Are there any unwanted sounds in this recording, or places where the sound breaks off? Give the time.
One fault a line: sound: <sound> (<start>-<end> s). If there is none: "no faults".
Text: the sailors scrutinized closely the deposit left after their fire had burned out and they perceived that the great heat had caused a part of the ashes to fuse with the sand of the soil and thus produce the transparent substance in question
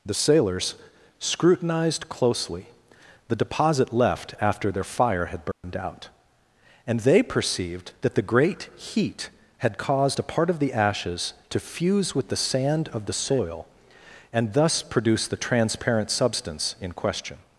sound: dropout (5.5-5.6 s)